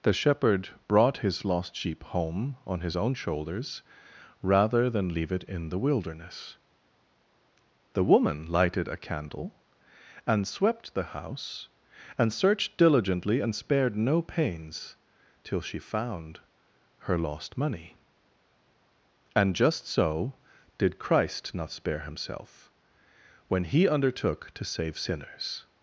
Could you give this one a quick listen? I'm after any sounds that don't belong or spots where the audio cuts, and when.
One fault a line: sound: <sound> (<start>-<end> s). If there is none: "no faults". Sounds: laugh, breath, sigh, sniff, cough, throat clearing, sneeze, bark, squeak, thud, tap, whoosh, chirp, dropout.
no faults